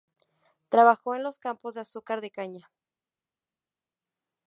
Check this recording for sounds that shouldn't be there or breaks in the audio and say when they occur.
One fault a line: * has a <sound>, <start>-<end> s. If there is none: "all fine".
all fine